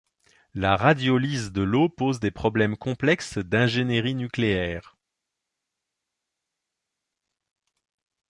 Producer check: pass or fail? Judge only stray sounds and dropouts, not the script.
pass